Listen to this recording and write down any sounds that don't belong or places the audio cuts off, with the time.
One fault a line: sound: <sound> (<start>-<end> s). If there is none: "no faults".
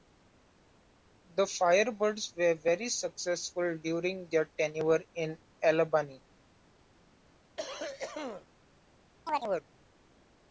sound: cough (7.6-8.5 s)
sound: chirp (9.3-9.7 s)